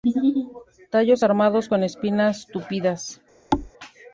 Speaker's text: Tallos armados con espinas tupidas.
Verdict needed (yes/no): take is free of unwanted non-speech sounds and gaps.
no